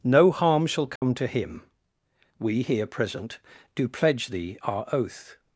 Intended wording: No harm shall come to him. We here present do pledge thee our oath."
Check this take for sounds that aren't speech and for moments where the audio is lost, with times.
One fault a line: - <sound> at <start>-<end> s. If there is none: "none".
- dropout at 1.0-1.0 s